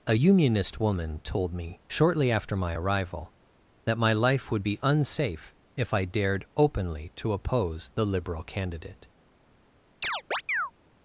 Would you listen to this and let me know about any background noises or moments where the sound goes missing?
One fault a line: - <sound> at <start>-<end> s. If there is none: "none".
- chirp at 10.0-10.7 s